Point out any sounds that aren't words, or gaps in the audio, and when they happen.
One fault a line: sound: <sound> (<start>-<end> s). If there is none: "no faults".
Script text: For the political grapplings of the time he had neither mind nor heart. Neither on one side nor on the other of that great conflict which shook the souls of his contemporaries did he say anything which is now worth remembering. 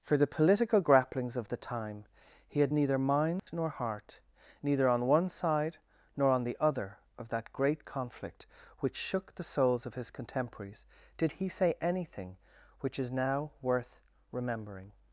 sound: dropout (3.4-3.5 s)